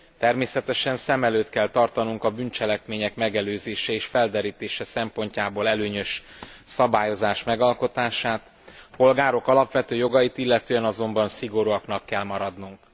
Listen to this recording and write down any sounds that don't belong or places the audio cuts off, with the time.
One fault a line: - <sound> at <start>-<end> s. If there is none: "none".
none